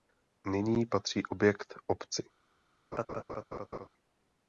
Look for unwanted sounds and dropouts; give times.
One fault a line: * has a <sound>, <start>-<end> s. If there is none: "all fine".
* has a laugh, 2.9-3.9 s